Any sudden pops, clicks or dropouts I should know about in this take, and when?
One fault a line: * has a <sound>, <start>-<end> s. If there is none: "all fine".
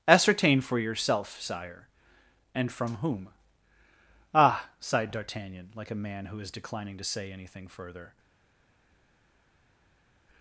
all fine